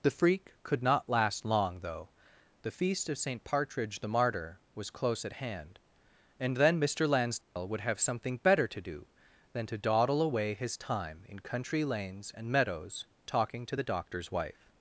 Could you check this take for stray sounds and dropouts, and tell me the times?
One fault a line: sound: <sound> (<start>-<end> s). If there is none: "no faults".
sound: dropout (7.4-7.6 s)